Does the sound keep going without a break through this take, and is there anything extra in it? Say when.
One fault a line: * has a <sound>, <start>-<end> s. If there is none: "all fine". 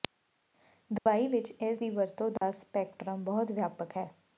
* has a dropout, 1.0-1.1 s
* has a dropout, 2.4-2.4 s